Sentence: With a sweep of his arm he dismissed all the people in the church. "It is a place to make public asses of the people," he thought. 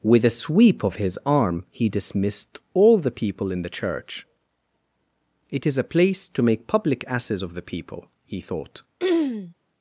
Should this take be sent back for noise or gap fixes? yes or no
yes